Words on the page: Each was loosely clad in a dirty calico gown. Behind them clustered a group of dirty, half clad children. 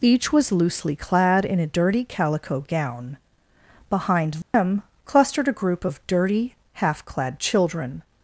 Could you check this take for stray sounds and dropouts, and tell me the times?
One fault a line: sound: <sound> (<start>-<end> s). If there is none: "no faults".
sound: dropout (4.4-4.5 s)